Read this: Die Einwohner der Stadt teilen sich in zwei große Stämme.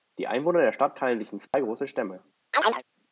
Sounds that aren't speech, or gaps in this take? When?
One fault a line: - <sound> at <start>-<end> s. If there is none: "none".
- dropout at 1.5-1.5 s
- chirp at 2.5-2.8 s